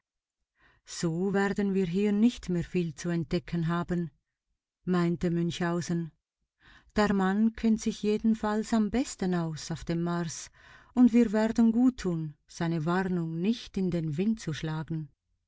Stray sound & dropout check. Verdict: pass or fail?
pass